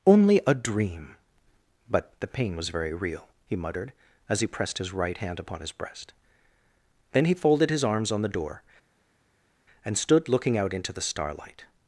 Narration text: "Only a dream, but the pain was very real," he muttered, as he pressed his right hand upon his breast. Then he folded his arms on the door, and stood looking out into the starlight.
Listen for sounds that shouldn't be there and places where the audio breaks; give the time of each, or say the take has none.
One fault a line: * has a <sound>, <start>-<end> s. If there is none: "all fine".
all fine